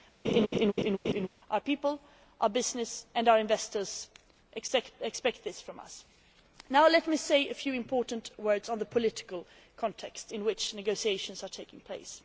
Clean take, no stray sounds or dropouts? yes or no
no